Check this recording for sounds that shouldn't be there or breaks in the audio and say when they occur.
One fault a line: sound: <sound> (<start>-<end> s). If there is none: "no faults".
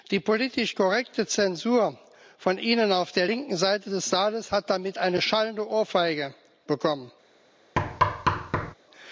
sound: thud (7.8-8.7 s)